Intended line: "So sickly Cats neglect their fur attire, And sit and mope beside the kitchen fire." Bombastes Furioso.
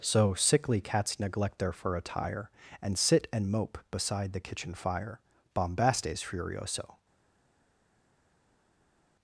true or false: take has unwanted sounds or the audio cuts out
false